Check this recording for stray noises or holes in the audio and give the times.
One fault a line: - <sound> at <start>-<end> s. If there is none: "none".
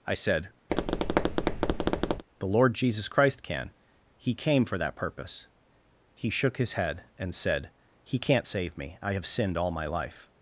- tap at 0.7-2.2 s